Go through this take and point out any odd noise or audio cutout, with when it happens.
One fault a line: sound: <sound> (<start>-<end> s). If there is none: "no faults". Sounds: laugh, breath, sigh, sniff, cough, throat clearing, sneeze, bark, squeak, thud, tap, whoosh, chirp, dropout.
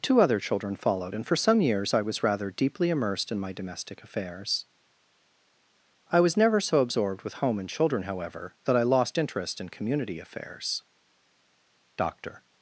no faults